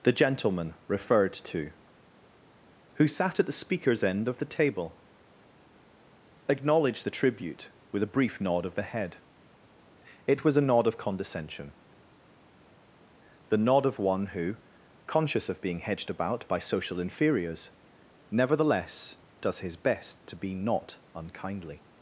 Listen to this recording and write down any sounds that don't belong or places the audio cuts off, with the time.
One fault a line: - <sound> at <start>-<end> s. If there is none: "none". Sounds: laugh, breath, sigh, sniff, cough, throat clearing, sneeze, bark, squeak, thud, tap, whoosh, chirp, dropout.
none